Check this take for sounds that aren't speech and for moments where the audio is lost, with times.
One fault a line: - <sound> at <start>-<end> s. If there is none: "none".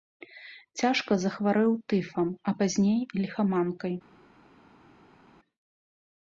none